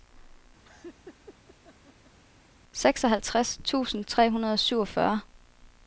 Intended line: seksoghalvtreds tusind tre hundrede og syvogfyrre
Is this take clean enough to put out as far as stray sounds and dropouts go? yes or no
no